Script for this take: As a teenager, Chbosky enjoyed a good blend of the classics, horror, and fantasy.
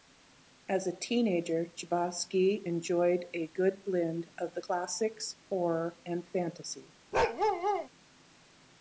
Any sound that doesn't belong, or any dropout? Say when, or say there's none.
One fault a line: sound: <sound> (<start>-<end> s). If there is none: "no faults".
sound: bark (7.1-7.9 s)